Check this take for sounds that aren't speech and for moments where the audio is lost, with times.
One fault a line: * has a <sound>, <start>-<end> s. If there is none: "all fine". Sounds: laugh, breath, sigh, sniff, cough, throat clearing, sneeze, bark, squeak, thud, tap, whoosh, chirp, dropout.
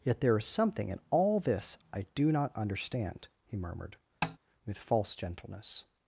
* has a tap, 4.2-4.4 s